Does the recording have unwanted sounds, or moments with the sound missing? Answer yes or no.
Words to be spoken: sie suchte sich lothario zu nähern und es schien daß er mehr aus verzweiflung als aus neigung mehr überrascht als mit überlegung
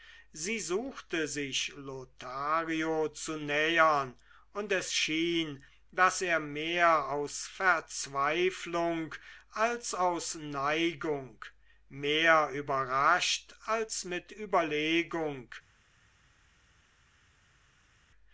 no